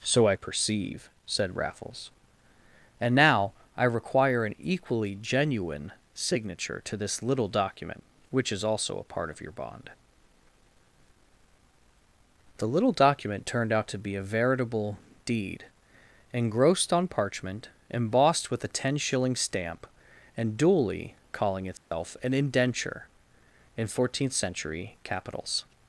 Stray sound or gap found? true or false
true